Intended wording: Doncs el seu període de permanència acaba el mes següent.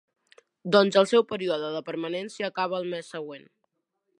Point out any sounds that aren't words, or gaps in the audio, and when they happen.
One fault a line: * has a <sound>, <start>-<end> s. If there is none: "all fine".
all fine